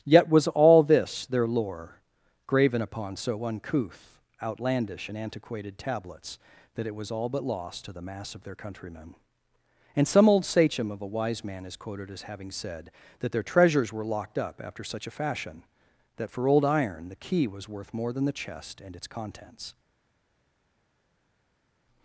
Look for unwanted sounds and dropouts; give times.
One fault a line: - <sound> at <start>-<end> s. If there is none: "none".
none